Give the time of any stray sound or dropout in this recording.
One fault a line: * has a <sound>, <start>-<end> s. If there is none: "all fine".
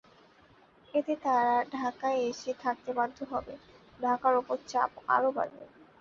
all fine